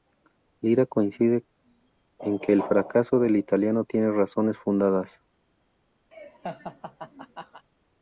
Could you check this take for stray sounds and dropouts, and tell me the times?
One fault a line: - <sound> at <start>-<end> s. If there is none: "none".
- laugh at 6.1-7.6 s